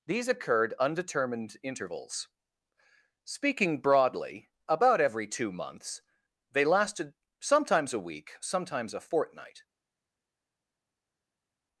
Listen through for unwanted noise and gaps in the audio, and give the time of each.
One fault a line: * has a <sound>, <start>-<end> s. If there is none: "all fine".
all fine